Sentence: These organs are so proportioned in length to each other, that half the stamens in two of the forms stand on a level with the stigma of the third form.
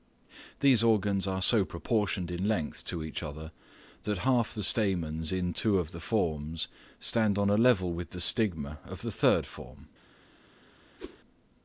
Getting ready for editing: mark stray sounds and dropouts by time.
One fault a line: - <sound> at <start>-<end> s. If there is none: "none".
- whoosh at 11.0-11.2 s